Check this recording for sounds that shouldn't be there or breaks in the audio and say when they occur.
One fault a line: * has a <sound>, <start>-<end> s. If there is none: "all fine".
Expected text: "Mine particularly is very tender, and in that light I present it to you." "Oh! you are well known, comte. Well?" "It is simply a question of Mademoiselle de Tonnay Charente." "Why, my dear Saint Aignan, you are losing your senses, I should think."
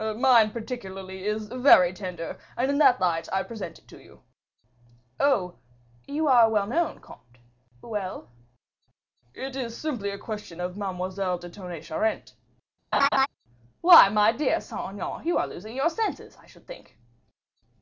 * has a laugh, 12.9-13.3 s